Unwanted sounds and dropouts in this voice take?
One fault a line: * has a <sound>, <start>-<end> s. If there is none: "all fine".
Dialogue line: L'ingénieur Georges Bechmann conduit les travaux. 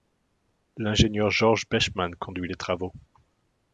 all fine